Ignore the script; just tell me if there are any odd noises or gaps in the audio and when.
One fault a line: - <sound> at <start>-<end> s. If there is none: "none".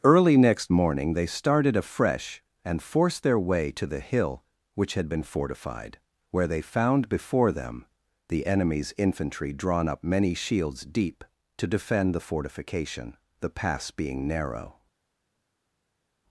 none